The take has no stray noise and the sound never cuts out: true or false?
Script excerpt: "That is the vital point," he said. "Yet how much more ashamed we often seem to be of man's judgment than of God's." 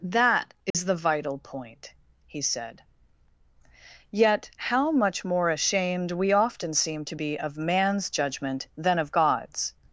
false